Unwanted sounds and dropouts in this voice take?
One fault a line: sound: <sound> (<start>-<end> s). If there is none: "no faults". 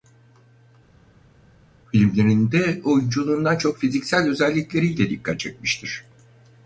no faults